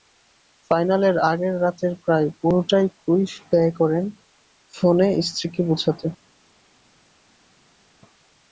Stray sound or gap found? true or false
false